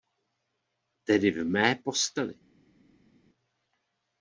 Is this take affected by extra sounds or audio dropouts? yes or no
no